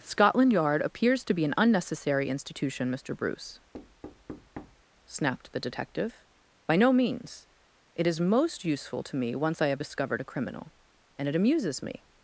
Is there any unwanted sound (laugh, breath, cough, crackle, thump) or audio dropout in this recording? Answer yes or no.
yes